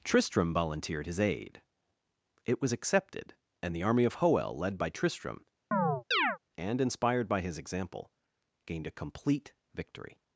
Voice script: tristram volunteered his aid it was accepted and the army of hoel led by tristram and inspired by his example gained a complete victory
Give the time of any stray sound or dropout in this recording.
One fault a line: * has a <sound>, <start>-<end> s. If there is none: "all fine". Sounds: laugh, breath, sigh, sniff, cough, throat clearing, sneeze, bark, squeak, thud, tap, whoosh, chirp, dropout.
* has a chirp, 5.7-6.4 s